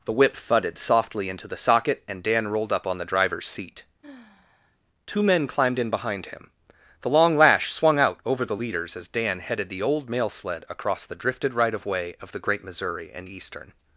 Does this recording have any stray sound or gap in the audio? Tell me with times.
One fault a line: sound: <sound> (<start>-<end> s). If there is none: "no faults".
sound: sigh (4.0-4.8 s)